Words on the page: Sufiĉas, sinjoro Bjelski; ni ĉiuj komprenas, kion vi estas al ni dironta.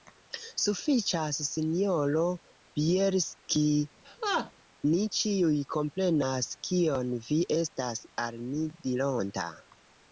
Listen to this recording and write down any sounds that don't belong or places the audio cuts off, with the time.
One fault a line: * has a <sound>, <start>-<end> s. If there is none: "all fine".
* has a laugh, 4.0-4.5 s